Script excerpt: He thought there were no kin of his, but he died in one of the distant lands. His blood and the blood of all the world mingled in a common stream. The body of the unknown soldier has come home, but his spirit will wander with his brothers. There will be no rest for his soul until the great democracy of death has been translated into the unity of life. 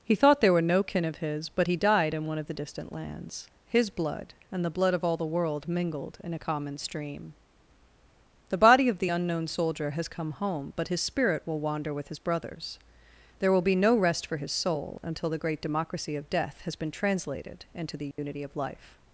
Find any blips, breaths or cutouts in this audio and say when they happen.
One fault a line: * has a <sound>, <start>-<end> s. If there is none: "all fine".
* has a dropout, 18.1-18.2 s